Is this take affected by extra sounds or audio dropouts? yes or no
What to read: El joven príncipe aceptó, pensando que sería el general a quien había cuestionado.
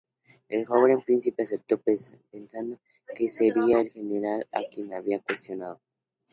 no